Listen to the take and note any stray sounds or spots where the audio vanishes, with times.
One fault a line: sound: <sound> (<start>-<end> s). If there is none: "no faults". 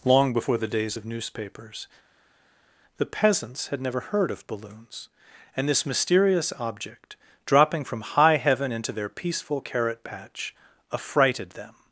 no faults